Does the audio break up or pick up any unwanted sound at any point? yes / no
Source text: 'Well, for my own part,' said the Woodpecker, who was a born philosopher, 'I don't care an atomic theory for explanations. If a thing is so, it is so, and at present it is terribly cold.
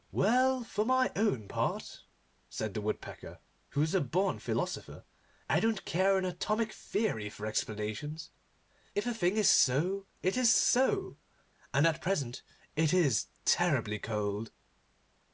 no